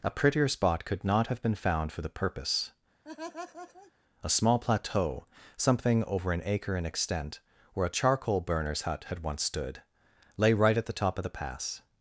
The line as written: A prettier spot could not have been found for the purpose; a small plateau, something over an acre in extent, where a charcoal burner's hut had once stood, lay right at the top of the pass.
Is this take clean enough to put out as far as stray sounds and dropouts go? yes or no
no